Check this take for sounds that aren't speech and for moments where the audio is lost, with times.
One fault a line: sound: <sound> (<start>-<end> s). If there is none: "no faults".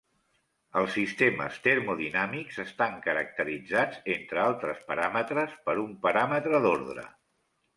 no faults